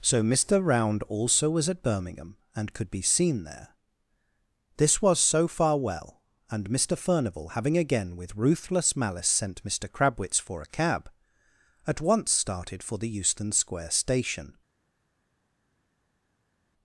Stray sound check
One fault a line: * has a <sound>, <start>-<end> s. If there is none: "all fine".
all fine